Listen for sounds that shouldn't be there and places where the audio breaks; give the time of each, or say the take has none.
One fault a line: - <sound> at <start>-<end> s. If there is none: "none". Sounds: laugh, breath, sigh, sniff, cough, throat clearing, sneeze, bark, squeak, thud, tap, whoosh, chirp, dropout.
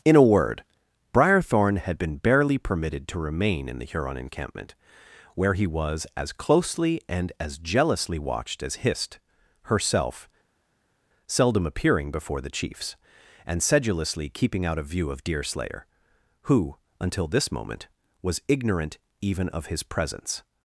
none